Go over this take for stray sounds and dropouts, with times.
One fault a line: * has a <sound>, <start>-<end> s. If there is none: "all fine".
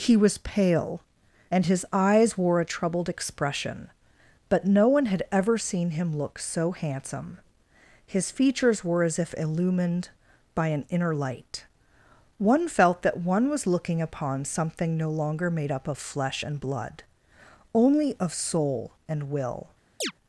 * has a chirp, 20.0-20.1 s